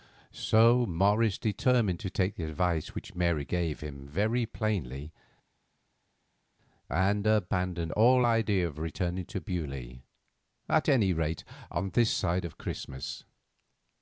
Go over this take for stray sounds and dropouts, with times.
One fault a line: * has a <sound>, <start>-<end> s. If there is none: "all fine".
all fine